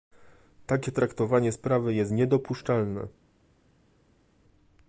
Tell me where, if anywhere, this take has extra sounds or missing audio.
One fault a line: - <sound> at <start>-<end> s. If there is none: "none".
none